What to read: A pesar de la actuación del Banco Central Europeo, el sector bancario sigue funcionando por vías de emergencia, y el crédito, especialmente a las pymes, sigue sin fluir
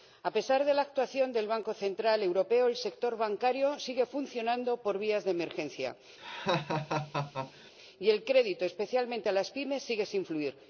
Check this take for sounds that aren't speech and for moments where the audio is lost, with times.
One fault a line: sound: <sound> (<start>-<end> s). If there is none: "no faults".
sound: laugh (6.2-7.7 s)